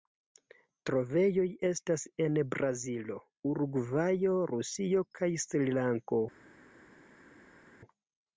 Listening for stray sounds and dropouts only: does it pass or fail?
pass